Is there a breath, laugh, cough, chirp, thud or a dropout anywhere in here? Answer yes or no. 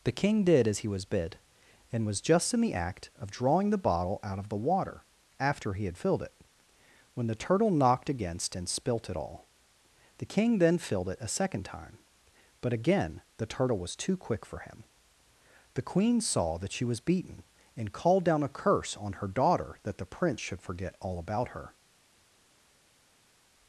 no